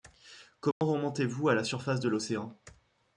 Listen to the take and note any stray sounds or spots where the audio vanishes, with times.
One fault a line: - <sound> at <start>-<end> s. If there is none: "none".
- dropout at 0.7-0.8 s